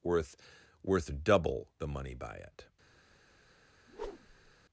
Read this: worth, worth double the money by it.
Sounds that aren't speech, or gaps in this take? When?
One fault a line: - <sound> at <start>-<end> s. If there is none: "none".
- whoosh at 3.9-4.5 s